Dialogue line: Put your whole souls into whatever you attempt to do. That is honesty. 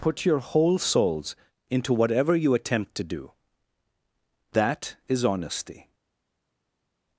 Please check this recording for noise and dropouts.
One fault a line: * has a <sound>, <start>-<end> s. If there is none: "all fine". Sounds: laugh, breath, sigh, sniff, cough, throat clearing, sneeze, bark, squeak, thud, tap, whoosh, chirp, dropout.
all fine